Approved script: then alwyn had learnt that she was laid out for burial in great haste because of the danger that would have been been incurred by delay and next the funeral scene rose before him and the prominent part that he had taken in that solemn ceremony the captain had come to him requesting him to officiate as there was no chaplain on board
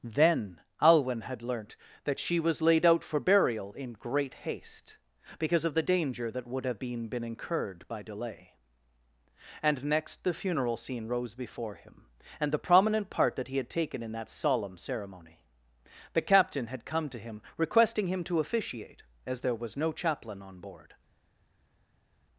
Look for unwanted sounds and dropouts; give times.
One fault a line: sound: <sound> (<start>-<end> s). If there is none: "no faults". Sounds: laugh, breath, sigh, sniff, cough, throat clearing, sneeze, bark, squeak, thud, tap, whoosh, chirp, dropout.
no faults